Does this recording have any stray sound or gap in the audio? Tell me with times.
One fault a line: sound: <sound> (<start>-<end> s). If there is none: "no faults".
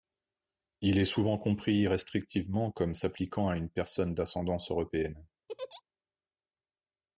sound: laugh (5.5-5.8 s)